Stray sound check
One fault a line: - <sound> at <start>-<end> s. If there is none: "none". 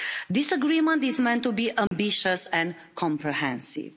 - dropout at 1.9-1.9 s